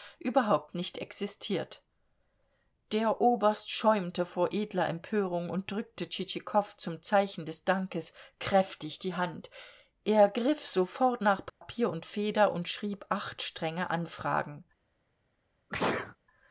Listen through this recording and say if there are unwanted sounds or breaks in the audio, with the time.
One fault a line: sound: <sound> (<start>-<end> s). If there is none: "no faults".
sound: dropout (11.5-11.6 s)
sound: sneeze (15.7-16.2 s)